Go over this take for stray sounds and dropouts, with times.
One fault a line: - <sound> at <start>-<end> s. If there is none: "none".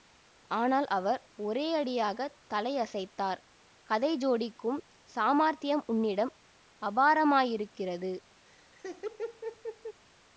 - laugh at 8.4-10.0 s